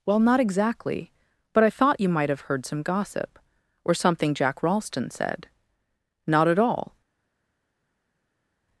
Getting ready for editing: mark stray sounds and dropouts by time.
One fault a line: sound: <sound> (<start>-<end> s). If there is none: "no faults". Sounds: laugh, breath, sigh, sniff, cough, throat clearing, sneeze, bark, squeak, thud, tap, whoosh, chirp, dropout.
no faults